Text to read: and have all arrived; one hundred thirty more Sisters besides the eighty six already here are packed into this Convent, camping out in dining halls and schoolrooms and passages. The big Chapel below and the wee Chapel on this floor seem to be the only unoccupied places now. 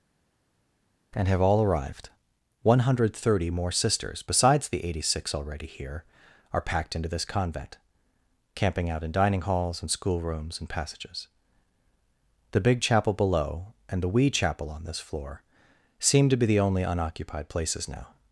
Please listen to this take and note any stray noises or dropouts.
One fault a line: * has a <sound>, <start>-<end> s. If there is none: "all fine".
all fine